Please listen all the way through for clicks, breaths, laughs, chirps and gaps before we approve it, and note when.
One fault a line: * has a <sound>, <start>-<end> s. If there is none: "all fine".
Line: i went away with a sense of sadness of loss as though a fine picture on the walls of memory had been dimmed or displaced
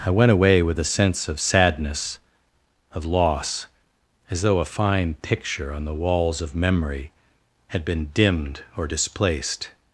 all fine